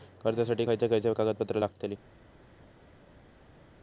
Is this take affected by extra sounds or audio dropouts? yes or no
no